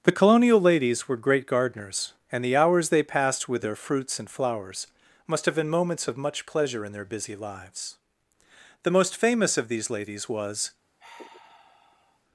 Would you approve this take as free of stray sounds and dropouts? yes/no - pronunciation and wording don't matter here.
no